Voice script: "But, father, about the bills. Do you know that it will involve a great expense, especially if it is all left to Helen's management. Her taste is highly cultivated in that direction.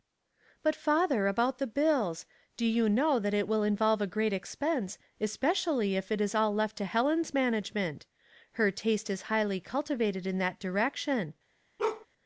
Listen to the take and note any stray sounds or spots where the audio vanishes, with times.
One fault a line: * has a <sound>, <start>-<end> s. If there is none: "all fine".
* has a bark, 11.8-12.1 s